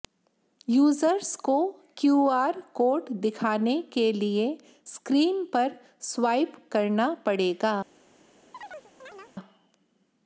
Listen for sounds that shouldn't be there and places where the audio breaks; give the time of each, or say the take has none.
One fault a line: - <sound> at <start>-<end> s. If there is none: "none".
- chirp at 8.5-9.4 s